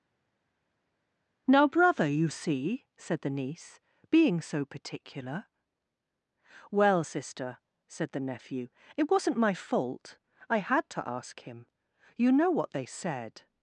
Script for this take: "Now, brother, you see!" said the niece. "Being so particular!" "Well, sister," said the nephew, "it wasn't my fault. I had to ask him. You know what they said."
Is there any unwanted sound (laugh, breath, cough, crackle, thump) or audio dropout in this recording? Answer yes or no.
no